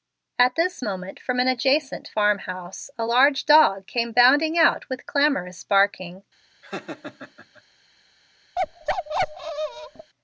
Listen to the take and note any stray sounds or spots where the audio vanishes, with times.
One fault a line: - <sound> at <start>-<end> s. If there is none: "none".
- laugh at 6.6-7.6 s
- bark at 8.6-10.1 s